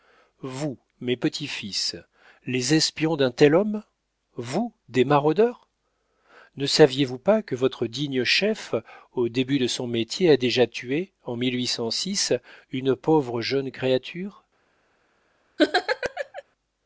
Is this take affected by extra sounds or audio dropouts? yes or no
yes